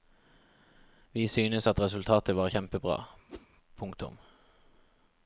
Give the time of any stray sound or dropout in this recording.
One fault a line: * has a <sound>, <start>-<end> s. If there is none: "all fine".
* has a whoosh, 3.3-3.5 s